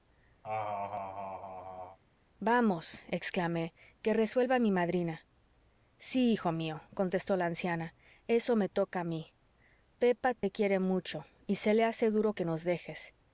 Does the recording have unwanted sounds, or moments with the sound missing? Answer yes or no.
yes